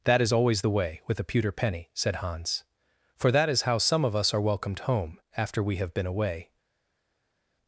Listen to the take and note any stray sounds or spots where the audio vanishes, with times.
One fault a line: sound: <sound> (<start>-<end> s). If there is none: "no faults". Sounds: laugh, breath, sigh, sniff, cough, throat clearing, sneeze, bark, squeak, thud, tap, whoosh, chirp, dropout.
no faults